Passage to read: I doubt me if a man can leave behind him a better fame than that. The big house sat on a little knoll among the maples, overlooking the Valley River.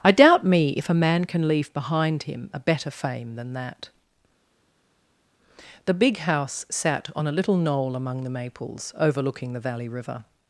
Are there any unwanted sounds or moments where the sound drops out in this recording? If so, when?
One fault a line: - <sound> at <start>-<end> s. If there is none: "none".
none